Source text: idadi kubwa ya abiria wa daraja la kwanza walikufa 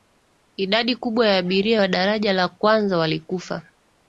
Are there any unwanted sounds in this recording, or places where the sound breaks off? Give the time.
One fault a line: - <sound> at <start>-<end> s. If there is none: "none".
none